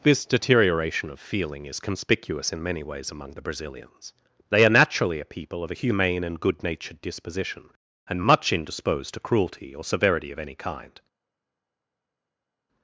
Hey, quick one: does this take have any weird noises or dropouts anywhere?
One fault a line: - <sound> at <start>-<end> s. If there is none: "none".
none